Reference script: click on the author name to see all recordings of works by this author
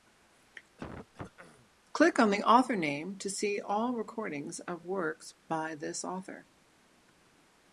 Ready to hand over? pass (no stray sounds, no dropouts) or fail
fail